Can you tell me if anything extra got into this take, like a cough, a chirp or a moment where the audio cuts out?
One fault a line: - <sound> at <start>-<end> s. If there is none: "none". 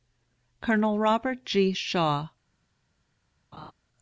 - laugh at 3.5-3.7 s